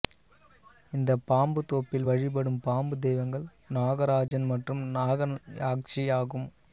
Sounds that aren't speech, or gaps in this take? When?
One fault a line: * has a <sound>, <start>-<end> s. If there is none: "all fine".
* has a dropout, 4.3-4.3 s